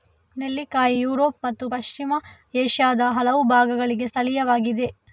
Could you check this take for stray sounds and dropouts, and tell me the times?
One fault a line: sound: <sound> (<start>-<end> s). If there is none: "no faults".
no faults